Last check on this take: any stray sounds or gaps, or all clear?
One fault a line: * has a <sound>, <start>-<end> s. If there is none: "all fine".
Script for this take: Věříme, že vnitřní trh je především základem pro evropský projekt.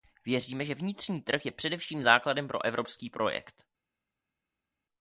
all fine